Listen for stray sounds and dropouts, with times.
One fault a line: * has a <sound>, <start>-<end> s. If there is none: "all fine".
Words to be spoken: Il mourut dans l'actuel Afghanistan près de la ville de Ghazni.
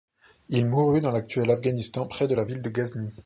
all fine